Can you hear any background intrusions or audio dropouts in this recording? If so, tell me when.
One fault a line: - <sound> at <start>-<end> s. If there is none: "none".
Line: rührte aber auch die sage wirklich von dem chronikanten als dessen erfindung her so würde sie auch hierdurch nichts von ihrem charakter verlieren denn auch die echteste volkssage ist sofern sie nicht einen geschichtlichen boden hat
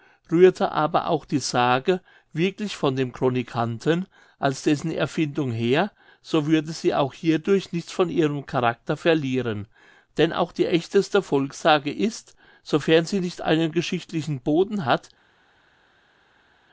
none